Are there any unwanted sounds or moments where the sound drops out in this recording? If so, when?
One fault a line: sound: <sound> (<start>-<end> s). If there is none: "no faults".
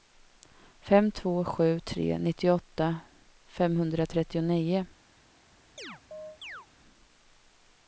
sound: chirp (5.8-6.7 s)